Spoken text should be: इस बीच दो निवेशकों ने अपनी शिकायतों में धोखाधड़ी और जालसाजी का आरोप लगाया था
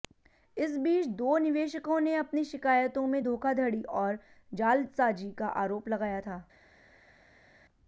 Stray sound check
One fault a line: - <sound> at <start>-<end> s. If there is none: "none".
none